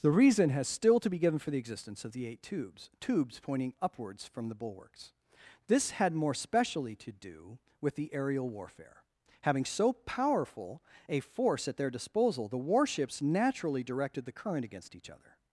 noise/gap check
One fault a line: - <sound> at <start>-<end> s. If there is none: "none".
none